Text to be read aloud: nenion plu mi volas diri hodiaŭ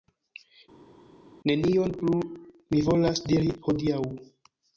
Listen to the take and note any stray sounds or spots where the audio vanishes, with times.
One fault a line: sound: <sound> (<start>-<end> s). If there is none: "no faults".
no faults